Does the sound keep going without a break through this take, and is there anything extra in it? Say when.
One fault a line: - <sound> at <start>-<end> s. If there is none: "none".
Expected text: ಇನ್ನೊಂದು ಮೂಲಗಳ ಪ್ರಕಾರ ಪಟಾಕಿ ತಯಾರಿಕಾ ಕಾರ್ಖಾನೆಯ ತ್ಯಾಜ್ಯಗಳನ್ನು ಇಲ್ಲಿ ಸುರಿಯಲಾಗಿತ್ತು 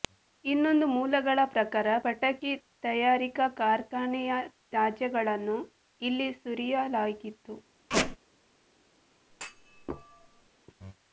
- squeak at 7.9-8.2 s
- thud at 9.3-10.5 s